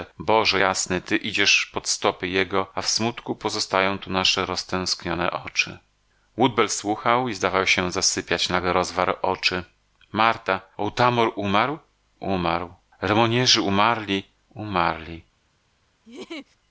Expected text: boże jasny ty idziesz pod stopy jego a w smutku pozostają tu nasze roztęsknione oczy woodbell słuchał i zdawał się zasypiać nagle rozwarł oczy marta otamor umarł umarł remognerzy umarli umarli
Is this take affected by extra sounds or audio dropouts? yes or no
yes